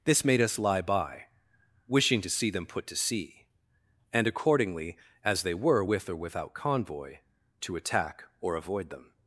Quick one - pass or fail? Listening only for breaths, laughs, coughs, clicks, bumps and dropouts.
pass